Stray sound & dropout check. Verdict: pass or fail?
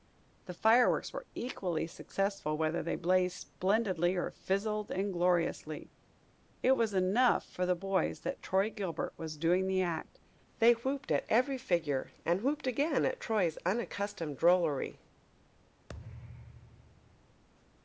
fail